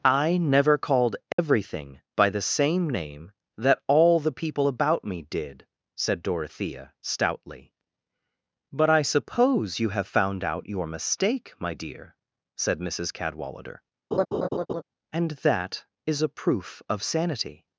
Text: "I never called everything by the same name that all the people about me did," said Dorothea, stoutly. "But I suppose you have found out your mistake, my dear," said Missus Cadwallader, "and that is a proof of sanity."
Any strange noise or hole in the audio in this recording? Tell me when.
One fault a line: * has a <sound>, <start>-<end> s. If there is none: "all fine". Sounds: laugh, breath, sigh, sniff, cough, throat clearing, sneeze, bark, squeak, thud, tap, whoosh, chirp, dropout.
* has a dropout, 1.3-1.4 s
* has a laugh, 14.1-14.8 s